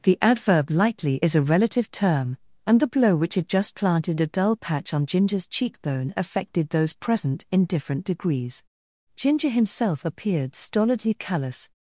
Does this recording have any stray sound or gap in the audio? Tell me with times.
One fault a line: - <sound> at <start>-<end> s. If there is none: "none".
none